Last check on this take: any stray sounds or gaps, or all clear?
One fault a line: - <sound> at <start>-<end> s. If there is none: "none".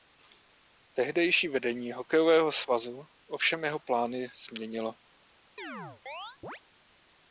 - chirp at 5.6-6.6 s